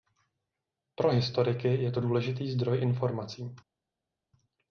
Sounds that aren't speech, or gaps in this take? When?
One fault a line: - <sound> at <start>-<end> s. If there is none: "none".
none